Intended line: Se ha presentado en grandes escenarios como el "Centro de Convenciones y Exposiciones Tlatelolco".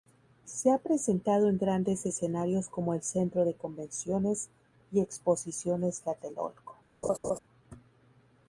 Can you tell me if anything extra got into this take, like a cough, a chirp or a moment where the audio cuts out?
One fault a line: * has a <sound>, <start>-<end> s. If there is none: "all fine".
* has a laugh, 7.0-7.4 s